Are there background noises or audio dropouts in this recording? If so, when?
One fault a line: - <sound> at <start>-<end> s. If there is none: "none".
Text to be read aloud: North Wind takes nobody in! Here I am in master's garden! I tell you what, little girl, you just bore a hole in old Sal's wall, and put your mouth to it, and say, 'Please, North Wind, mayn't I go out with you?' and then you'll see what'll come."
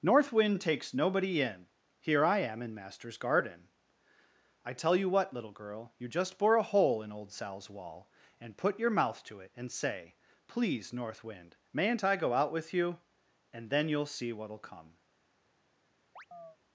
- chirp at 16.2-16.6 s